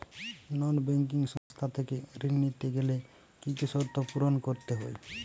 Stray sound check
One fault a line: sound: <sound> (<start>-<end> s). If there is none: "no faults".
sound: dropout (1.4-1.5 s)